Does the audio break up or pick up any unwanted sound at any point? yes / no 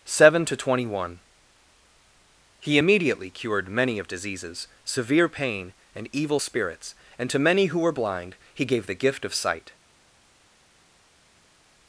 no